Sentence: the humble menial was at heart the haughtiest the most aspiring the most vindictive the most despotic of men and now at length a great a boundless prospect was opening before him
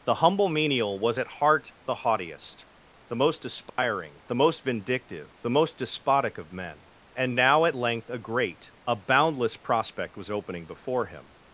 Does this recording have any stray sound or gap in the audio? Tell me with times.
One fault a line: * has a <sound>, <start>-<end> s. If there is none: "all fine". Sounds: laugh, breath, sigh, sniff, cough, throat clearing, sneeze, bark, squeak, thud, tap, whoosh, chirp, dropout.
* has a dropout, 3.7-3.8 s